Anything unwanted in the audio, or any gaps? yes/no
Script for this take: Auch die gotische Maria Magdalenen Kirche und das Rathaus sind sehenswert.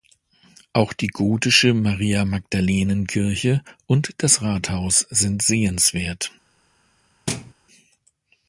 yes